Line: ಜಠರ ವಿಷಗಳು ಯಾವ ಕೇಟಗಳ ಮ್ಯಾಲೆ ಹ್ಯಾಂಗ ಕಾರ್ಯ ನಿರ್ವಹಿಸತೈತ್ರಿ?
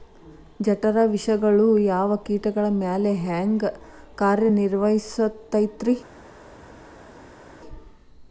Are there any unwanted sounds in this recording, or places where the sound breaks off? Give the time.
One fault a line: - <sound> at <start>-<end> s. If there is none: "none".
none